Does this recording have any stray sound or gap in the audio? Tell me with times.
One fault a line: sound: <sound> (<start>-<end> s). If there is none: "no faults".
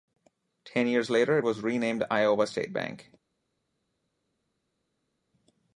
no faults